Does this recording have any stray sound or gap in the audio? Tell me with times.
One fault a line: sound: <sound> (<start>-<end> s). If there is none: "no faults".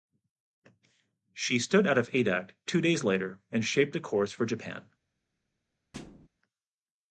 sound: thud (5.9-6.3 s)